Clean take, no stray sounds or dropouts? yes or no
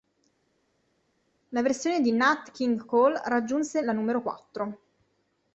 yes